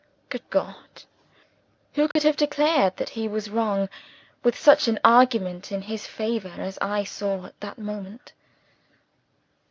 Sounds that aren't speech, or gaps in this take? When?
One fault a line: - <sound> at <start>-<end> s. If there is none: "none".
- dropout at 2.1-2.2 s